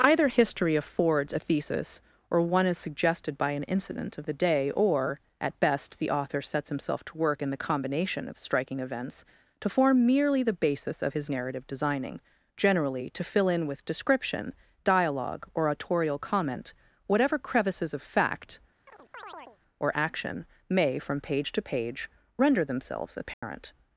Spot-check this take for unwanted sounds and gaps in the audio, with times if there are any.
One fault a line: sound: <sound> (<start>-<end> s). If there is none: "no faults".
sound: chirp (18.9-19.6 s)
sound: dropout (23.3-23.4 s)